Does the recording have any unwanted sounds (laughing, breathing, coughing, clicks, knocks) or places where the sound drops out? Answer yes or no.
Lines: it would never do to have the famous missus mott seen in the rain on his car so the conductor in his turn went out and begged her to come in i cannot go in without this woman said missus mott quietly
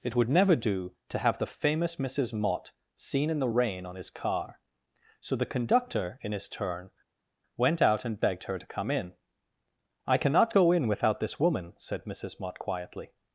no